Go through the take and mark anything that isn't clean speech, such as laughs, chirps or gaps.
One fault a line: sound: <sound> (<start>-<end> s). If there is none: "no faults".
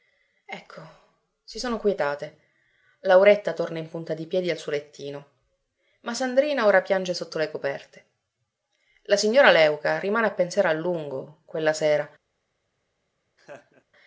sound: laugh (13.4-13.8 s)